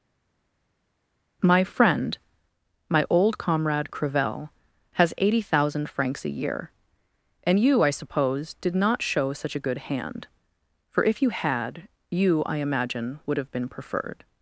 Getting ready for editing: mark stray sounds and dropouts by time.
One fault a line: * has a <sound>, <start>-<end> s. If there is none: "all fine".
all fine